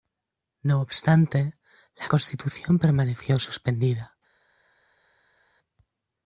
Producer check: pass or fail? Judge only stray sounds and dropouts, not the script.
pass